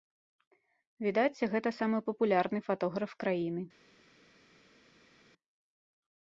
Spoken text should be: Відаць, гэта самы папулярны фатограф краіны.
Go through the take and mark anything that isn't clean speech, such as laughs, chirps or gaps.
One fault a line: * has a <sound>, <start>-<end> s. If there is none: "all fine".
all fine